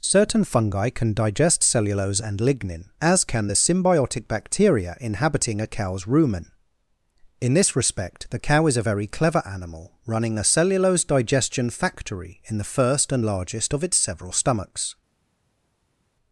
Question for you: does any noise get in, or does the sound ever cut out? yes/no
no